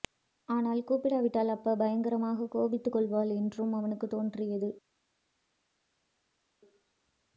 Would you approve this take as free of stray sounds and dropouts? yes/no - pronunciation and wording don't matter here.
yes